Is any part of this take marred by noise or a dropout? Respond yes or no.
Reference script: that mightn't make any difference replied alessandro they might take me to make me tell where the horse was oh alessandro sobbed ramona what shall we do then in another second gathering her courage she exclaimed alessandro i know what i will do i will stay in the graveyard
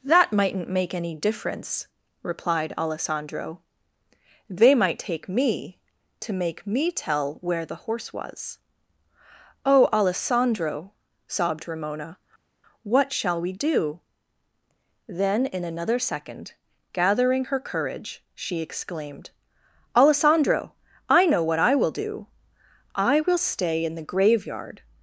no